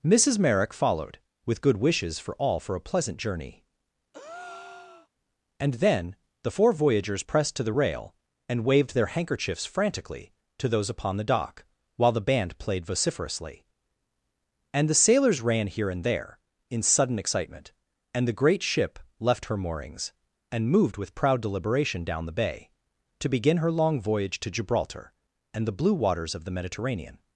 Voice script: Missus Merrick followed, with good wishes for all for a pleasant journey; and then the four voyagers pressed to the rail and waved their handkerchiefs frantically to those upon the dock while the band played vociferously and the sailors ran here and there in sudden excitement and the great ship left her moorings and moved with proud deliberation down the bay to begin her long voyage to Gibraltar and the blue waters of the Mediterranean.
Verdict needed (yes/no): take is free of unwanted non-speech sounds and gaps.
no